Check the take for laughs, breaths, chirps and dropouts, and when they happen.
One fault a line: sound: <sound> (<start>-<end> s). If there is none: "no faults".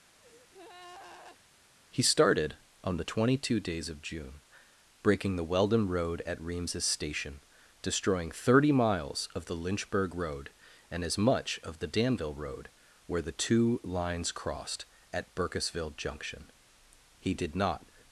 sound: breath (0.2-1.4 s)